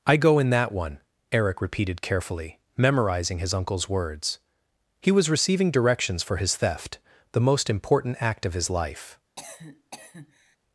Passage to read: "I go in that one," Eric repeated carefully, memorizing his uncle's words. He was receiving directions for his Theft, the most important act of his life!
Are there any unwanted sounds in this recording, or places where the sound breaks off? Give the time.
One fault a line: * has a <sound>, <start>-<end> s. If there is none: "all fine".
* has a cough, 9.4-10.6 s